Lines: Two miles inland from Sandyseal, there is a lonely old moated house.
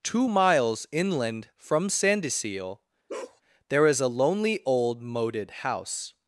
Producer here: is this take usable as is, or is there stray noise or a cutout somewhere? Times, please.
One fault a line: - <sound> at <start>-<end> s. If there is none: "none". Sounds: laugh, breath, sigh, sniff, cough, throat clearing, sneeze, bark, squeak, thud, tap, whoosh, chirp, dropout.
- bark at 3.1-3.4 s